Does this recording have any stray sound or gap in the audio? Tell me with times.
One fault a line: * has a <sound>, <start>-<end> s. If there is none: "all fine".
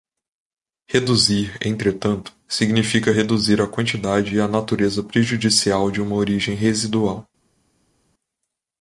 all fine